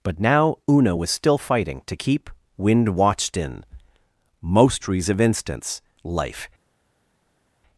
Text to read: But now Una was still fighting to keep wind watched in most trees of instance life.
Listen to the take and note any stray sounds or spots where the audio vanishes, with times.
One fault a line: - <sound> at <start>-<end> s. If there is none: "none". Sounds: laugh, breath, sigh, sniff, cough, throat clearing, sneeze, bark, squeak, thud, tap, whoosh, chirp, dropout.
none